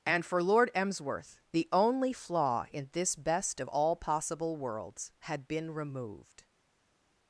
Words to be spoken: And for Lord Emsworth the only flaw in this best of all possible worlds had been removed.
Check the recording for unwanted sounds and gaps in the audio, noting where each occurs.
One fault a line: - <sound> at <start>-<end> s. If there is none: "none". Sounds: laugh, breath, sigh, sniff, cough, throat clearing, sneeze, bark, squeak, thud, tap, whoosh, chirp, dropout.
none